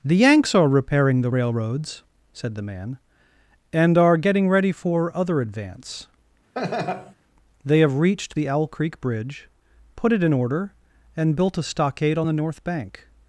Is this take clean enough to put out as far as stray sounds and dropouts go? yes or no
no